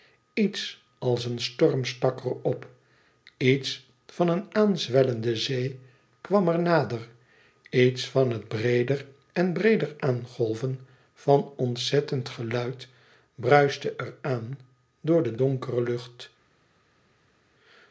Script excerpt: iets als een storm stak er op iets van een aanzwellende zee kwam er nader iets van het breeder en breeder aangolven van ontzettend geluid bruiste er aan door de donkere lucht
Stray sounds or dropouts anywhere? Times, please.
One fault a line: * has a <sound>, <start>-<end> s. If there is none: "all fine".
all fine